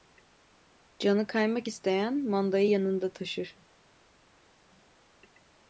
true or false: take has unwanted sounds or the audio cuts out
false